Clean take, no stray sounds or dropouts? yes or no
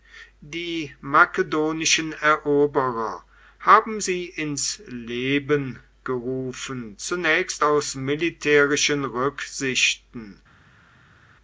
yes